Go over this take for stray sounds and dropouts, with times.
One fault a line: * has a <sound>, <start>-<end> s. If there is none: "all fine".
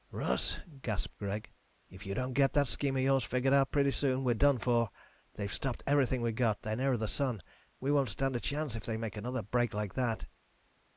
all fine